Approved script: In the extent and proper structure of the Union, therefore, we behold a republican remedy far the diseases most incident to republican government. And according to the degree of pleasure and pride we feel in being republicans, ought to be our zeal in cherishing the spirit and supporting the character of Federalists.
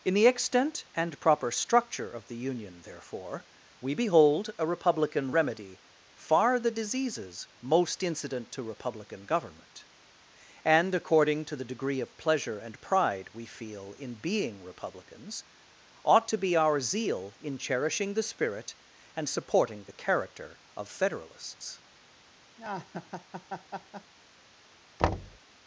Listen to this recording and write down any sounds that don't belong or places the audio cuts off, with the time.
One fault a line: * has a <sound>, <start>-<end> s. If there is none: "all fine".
* has a laugh, 22.6-24.1 s
* has a thud, 25.0-25.4 s